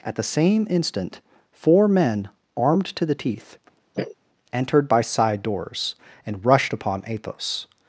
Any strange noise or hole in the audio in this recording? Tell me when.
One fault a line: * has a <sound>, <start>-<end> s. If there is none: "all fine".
* has a sniff, 3.9-4.2 s